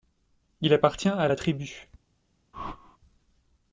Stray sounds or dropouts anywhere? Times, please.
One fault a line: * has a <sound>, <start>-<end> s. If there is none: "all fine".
* has a whoosh, 2.5-3.0 s